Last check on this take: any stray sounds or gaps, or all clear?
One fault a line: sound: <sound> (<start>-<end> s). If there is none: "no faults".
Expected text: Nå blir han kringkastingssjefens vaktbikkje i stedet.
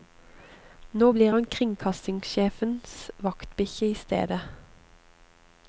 no faults